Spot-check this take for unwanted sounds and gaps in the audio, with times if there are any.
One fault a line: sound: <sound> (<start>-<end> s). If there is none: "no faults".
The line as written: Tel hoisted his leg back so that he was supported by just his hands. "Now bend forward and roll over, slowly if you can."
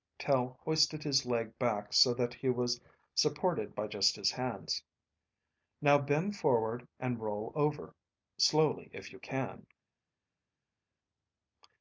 no faults